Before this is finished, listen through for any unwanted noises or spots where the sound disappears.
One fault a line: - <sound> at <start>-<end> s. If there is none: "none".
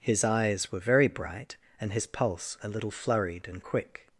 none